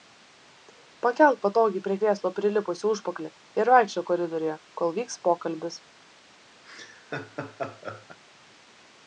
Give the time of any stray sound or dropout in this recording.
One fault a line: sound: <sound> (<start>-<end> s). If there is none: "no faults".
sound: laugh (6.6-8.2 s)